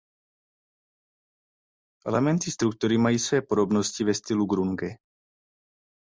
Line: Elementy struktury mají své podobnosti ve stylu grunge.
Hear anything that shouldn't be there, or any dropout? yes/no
no